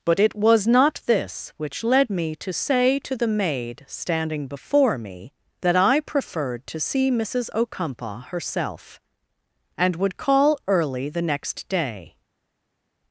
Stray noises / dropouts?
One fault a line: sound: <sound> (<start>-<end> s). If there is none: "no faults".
no faults